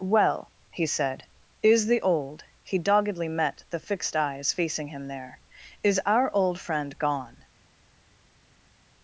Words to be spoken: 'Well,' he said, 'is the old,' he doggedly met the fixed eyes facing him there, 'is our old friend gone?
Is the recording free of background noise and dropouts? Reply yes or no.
yes